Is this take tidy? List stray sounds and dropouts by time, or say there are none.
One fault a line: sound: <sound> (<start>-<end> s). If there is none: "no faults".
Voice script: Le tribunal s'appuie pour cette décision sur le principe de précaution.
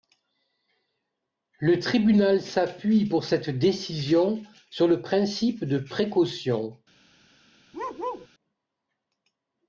sound: bark (7.7-8.3 s)